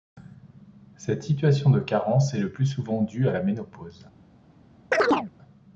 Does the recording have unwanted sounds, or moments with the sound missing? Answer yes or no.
yes